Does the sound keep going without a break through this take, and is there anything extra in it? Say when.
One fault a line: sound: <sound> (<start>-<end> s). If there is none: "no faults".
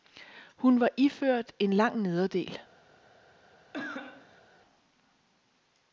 sound: cough (3.7-4.4 s)